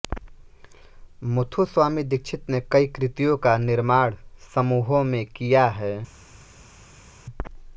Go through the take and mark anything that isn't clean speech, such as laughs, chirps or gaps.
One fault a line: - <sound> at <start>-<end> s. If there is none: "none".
none